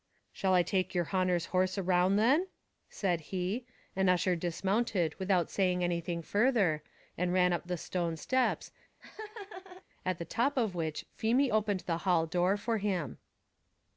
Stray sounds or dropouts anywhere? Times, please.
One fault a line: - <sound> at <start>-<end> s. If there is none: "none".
- laugh at 9.0-9.8 s